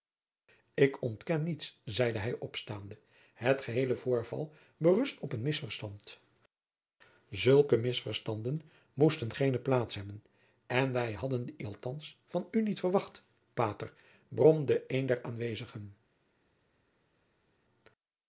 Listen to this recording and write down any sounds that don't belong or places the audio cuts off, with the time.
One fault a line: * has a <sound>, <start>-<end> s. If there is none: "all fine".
all fine